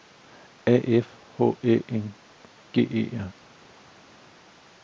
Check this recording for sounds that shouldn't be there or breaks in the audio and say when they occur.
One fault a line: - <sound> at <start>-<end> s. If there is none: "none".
none